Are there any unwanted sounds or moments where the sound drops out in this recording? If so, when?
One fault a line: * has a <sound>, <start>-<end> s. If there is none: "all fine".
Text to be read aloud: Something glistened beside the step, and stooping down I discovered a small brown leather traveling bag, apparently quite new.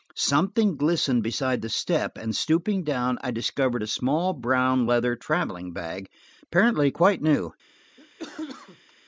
* has a cough, 8.0-8.9 s